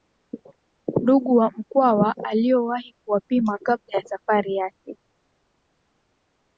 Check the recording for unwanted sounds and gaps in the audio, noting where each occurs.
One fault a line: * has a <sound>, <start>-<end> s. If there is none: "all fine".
all fine